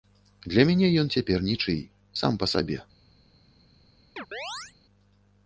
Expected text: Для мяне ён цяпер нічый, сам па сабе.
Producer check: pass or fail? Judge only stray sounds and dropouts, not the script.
fail